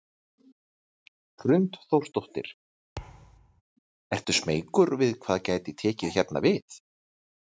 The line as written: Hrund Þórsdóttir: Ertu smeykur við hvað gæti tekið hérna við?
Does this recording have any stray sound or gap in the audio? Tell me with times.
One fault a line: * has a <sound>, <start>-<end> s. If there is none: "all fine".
* has a thud, 3.0-3.6 s